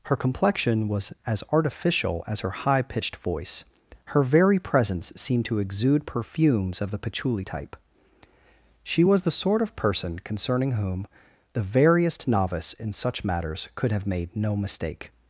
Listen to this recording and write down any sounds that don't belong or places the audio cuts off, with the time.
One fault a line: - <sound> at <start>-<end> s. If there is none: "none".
none